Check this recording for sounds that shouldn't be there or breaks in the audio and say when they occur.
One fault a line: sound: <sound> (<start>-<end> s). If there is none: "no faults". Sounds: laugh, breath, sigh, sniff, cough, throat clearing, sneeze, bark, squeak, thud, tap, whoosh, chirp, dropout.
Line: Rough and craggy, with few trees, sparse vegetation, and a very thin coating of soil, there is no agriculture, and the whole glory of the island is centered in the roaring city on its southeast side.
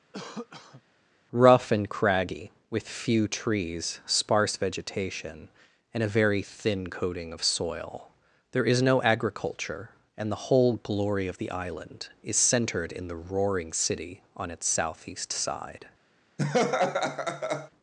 sound: cough (0.1-0.8 s)
sound: laugh (16.4-17.7 s)